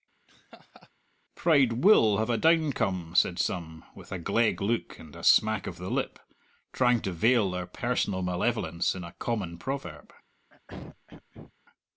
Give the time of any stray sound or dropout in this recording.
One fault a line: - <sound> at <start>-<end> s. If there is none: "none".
- laugh at 0.3-0.9 s
- throat clearing at 10.5-11.5 s